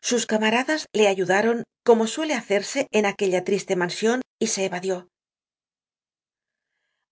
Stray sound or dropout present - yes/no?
no